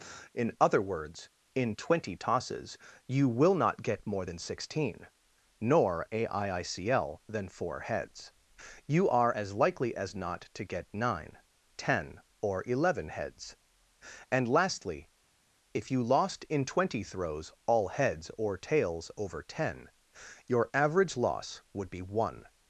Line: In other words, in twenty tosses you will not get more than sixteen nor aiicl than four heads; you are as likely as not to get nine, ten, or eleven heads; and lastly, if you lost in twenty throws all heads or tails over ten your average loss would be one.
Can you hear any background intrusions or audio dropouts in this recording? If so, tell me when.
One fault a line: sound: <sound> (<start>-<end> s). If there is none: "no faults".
no faults